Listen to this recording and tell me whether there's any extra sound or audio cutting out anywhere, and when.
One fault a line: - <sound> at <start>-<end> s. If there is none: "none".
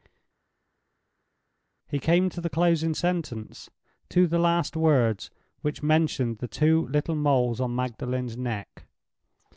none